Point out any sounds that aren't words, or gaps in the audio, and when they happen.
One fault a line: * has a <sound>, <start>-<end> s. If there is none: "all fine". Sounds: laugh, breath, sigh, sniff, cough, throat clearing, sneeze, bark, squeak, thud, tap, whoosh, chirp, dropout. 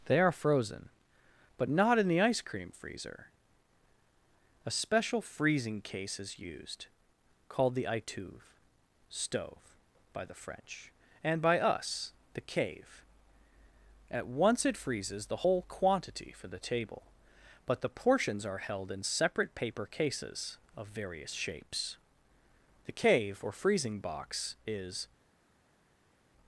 all fine